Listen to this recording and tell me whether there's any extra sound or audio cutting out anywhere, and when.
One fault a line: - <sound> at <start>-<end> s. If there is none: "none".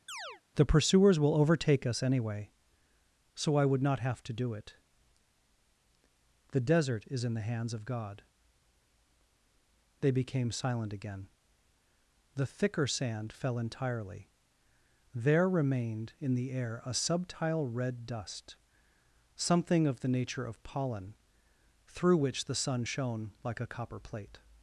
- chirp at 0.1-0.4 s